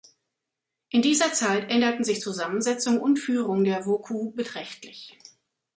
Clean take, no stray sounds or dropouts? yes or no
yes